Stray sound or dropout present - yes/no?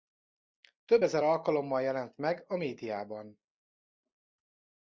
no